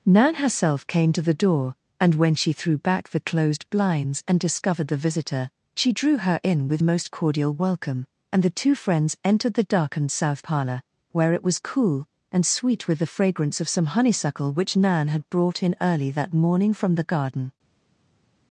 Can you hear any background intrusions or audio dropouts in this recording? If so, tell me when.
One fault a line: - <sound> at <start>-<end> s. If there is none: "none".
none